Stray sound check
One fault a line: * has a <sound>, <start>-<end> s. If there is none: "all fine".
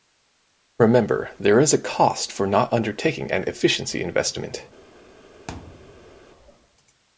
* has a thud, 5.5-6.3 s